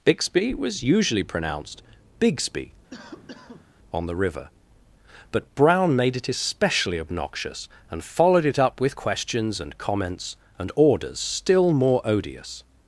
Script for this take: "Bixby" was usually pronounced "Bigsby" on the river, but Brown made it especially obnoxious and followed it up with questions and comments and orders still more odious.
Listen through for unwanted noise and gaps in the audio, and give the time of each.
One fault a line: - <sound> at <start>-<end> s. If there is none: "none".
- cough at 2.9-3.7 s